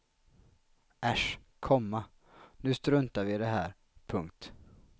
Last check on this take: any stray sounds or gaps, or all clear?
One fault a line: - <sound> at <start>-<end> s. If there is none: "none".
none